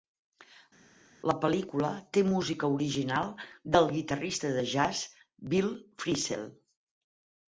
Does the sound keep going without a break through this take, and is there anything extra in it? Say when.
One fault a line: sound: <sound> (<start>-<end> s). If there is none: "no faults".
no faults